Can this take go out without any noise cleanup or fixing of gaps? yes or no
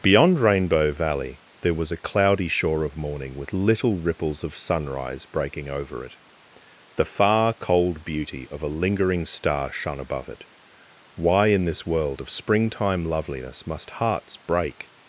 yes